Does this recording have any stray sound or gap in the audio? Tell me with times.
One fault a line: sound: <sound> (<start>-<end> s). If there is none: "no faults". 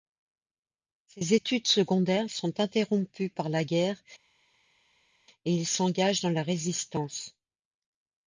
no faults